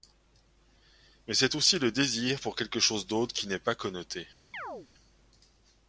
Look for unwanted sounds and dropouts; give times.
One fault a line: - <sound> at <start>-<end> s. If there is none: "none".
- chirp at 4.5-4.9 s